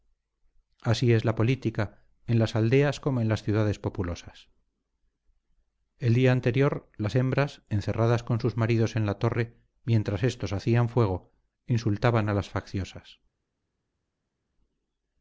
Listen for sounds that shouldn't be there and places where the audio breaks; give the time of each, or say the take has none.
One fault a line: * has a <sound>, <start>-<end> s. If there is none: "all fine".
all fine